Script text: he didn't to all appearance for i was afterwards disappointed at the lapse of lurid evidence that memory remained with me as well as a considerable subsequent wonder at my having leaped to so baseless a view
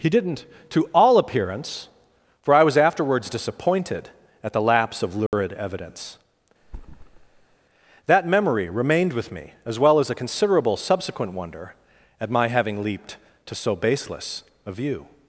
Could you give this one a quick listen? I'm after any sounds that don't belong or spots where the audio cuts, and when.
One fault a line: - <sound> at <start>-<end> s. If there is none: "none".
- dropout at 5.3-5.3 s
- thud at 6.6-7.6 s